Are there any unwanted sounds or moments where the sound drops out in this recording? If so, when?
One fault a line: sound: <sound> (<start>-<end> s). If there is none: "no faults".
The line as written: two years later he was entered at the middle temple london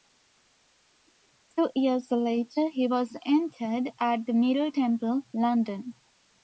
no faults